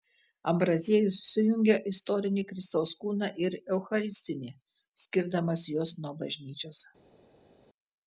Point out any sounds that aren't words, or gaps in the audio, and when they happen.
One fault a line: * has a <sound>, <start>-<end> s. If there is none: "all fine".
all fine